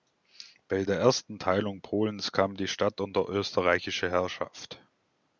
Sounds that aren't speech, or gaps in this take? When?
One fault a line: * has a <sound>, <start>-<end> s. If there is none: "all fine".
all fine